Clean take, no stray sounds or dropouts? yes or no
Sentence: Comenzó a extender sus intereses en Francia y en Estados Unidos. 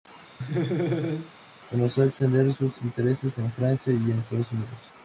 no